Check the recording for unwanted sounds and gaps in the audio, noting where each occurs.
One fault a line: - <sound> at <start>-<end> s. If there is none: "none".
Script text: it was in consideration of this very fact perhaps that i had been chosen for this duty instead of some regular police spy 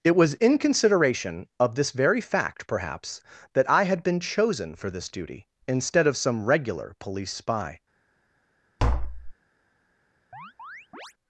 - tap at 8.8-9.3 s
- chirp at 10.3-11.1 s